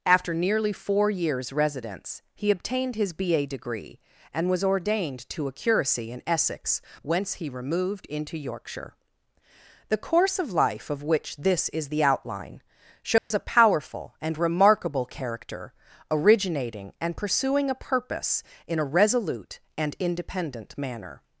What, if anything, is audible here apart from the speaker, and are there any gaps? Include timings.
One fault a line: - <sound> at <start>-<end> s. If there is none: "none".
- dropout at 13.2-13.3 s